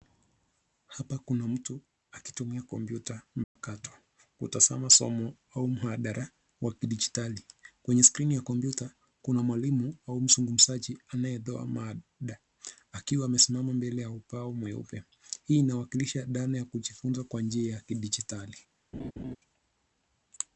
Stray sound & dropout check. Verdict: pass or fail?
fail